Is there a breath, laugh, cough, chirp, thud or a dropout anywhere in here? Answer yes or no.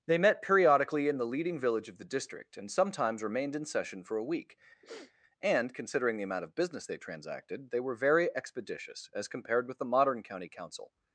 yes